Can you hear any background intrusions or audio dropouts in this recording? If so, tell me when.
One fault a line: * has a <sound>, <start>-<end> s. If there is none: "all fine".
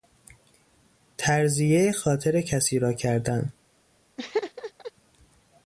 * has a laugh, 4.2-4.9 s